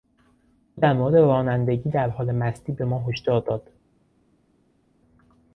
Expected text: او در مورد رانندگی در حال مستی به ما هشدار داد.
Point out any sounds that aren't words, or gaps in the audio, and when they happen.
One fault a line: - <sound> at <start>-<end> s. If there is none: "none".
none